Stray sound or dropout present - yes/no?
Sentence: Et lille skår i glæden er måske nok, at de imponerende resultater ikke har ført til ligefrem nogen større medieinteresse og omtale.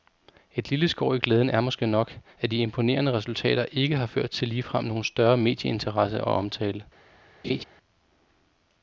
yes